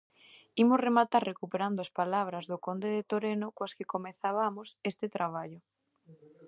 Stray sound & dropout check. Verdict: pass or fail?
pass